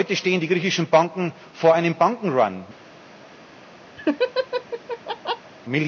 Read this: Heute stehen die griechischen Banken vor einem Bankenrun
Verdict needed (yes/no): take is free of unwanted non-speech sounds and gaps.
no